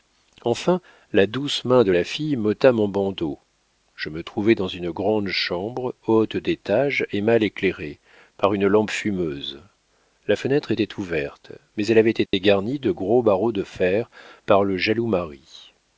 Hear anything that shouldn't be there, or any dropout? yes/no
yes